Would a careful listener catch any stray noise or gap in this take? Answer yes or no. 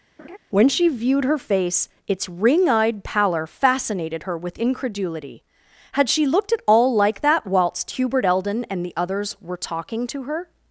yes